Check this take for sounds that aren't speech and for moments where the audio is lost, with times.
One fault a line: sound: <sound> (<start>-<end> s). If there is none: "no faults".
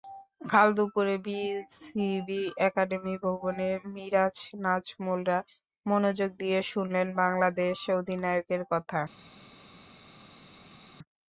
no faults